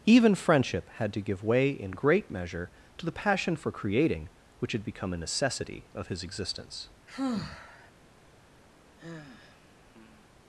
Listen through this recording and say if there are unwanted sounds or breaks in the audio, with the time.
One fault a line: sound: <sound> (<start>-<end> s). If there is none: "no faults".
sound: sigh (7.1-7.9 s)
sound: sigh (9.0-10.3 s)